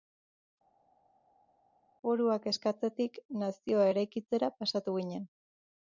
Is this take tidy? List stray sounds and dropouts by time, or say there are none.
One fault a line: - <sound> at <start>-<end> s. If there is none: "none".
none